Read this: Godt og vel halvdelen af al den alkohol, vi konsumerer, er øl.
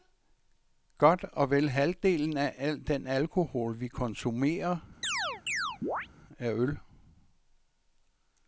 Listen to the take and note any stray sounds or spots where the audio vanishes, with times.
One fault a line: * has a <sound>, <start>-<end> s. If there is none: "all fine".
* has a chirp, 5.0-6.1 s